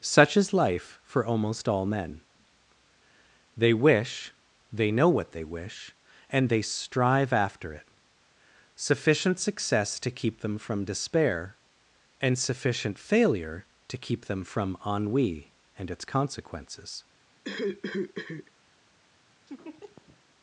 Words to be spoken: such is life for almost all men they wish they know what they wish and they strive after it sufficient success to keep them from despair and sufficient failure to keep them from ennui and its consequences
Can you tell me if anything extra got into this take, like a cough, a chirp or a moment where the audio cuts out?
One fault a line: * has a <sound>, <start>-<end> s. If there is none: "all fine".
* has a cough, 17.4-18.5 s
* has a laugh, 19.5-20.2 s